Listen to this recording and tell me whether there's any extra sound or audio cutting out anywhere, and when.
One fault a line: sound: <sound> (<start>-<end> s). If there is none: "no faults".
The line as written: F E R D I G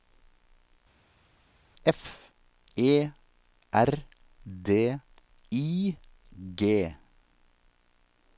no faults